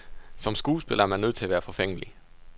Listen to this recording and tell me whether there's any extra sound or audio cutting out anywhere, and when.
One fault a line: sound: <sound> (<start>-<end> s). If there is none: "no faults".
no faults